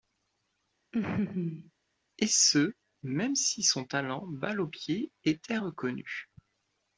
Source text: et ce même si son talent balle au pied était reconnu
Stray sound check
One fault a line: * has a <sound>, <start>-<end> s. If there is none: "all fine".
* has a laugh, 0.9-1.7 s